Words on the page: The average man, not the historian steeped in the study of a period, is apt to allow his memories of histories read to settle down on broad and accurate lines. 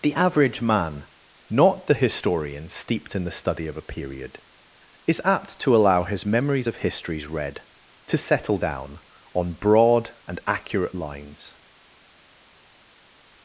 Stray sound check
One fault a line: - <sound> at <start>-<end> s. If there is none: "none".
none